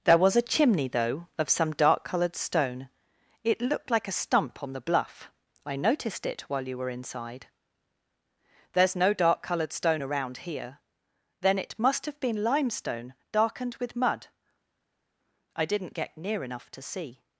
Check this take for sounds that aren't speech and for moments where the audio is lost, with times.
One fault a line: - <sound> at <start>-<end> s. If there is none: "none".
none